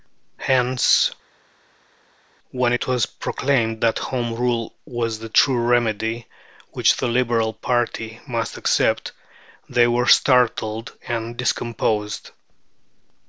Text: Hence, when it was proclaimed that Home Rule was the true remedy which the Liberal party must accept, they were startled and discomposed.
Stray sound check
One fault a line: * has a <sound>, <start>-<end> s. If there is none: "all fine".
all fine